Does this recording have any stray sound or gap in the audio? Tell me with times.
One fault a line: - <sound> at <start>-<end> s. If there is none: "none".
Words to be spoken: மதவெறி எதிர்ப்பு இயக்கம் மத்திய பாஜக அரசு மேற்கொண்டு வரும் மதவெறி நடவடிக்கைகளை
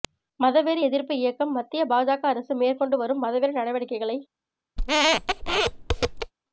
- squeak at 4.8-6.3 s